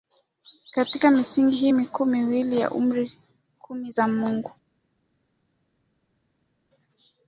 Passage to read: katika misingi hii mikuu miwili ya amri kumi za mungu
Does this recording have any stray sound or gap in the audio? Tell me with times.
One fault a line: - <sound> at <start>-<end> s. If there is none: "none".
none